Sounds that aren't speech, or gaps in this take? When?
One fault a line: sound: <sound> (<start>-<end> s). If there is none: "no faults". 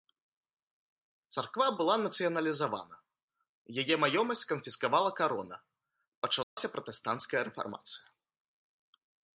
sound: dropout (6.4-6.6 s)